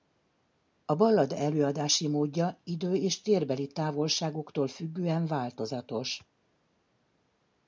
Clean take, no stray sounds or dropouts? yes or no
yes